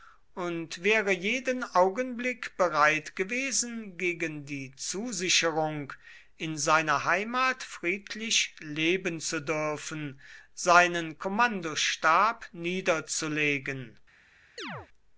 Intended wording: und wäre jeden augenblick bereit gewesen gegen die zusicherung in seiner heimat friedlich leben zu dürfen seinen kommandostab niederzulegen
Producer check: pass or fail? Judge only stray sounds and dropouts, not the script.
fail